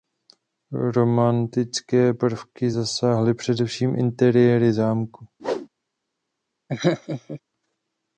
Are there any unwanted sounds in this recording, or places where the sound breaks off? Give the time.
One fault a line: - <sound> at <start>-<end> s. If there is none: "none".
- whoosh at 5.4-5.7 s
- laugh at 6.7-7.4 s